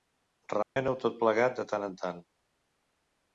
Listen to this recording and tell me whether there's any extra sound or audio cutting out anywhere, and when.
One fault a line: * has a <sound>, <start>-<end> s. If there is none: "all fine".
* has a dropout, 0.6-0.8 s